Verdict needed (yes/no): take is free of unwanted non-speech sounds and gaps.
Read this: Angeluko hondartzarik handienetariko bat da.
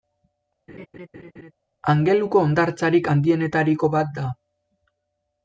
no